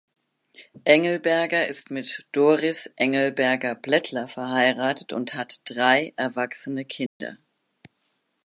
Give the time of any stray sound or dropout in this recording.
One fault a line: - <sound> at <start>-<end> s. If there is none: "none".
- dropout at 7.1-7.2 s